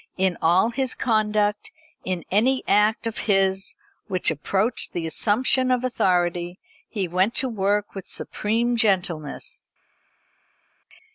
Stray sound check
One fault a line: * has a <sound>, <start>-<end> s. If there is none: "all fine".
all fine